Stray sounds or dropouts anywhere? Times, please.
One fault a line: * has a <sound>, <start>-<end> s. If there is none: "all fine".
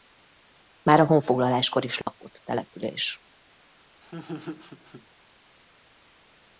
* has a dropout, 2.0-2.1 s
* has a laugh, 4.0-5.1 s